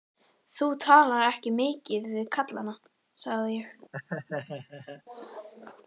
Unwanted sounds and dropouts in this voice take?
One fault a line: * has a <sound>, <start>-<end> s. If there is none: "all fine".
* has a laugh, 3.9-5.0 s